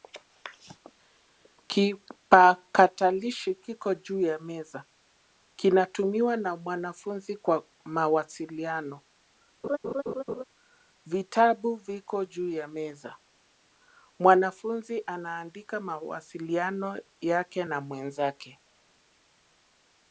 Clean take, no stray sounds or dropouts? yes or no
no